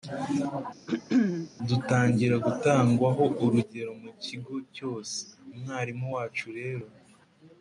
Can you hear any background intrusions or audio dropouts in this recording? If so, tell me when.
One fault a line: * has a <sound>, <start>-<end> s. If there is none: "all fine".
* has a throat clearing, 0.9-1.5 s